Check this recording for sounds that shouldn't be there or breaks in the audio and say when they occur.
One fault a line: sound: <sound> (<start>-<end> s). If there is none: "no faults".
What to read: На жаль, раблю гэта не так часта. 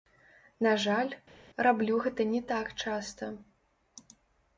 no faults